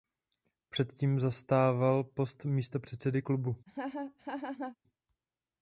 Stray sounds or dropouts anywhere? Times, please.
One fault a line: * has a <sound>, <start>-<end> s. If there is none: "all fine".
* has a laugh, 3.7-4.8 s